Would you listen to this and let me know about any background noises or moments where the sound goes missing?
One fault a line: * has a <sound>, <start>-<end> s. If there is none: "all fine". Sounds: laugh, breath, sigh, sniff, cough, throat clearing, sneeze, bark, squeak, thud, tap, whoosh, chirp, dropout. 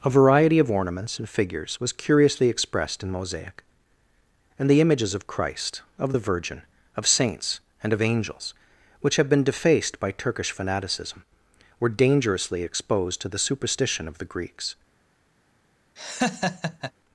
* has a laugh, 16.0-16.9 s